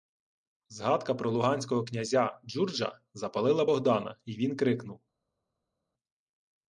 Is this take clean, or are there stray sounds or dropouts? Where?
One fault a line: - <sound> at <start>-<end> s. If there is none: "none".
none